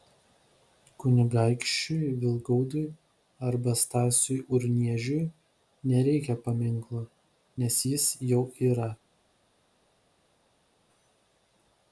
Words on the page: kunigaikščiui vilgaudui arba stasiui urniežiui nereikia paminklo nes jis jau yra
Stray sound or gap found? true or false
false